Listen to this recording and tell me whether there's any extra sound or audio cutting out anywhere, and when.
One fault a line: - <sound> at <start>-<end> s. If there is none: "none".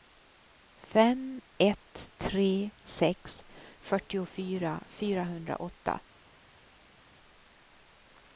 none